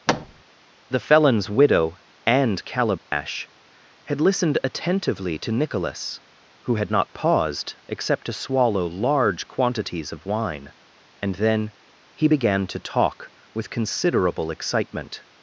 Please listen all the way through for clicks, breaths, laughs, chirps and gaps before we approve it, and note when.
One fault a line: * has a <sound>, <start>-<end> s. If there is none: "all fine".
* has a thud, 0.1-0.4 s
* has a dropout, 3.0-3.1 s